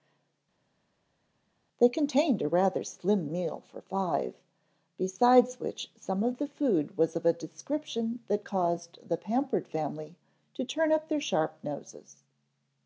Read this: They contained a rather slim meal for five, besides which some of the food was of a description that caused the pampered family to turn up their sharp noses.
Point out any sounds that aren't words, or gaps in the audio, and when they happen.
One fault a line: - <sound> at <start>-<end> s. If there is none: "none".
none